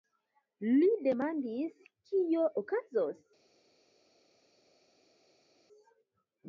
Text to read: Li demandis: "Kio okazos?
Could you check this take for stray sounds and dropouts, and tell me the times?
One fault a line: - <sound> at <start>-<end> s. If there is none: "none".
none